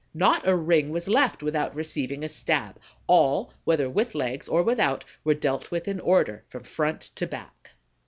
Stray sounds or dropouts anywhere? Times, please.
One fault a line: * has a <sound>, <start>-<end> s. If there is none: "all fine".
all fine